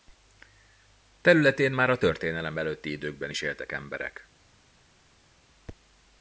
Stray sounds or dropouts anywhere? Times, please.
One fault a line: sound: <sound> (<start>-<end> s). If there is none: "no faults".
no faults